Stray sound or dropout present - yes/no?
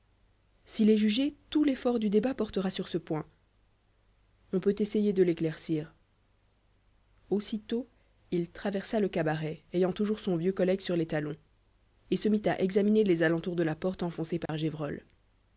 yes